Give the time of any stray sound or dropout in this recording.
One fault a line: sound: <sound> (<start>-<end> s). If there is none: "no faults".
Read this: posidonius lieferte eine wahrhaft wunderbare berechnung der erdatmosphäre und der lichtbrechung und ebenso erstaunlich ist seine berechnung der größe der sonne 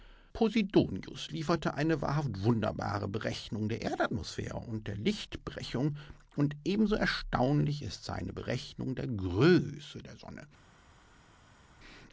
no faults